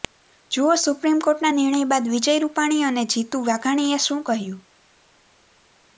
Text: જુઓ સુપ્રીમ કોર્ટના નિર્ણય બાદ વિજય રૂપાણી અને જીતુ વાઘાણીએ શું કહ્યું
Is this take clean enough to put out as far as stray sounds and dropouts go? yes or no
yes